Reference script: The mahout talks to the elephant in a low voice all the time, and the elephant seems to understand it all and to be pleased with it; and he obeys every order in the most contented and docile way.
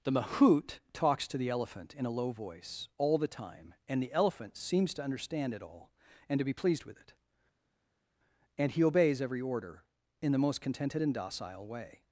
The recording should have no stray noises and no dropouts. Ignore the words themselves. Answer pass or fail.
pass